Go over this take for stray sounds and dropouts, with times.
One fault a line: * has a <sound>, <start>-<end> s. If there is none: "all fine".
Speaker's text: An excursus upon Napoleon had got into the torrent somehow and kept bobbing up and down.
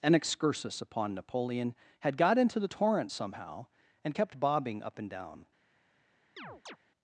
* has a chirp, 6.4-6.8 s